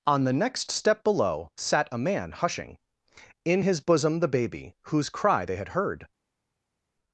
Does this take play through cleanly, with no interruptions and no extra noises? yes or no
yes